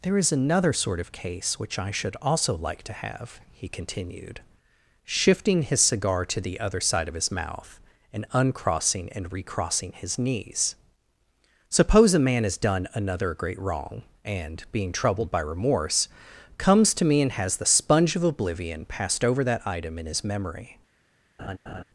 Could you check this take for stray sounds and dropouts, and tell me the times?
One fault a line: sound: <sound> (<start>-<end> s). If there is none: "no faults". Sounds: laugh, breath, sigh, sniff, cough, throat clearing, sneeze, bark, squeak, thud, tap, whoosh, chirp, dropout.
sound: laugh (21.4-21.8 s)